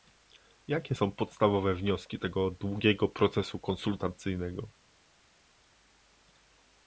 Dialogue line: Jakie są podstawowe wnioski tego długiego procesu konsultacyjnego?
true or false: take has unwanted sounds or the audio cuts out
false